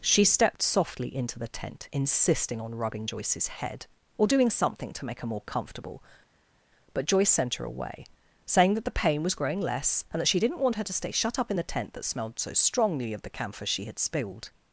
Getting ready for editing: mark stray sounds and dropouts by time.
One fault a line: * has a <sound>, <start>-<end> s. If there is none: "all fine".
all fine